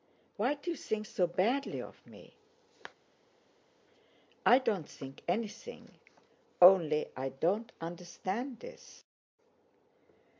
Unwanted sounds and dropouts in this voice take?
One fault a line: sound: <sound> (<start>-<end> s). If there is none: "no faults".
no faults